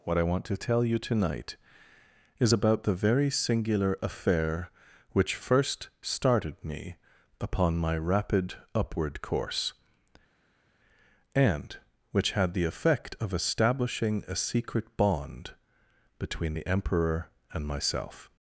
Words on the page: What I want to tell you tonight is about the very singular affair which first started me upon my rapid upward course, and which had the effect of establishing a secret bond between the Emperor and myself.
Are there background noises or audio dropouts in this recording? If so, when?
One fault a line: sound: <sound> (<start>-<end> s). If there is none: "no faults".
no faults